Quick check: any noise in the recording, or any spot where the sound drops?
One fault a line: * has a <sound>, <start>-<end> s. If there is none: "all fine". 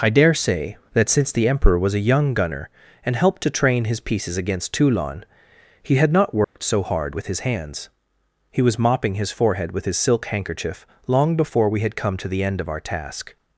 * has a dropout, 6.4-6.6 s